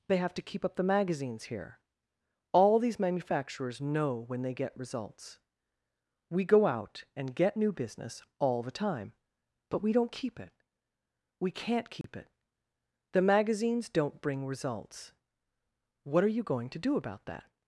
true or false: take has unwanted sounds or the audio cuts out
true